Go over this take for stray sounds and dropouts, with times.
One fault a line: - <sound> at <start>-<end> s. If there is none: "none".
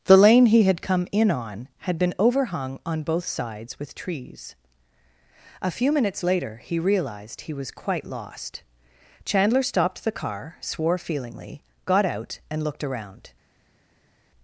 none